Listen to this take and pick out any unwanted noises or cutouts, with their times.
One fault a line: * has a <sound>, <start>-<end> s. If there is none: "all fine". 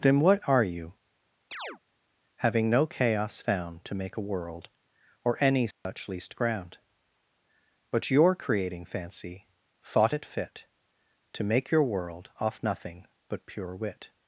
* has a chirp, 1.5-1.8 s
* has a dropout, 5.7-5.9 s